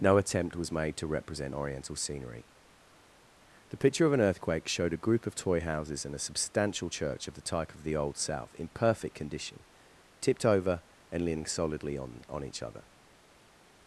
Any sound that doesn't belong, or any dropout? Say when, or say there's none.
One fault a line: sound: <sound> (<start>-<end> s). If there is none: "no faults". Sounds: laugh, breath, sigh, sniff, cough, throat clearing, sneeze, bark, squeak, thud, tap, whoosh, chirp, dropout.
no faults